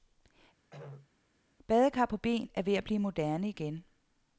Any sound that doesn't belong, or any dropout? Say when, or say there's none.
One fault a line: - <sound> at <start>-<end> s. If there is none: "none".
- throat clearing at 0.7-1.1 s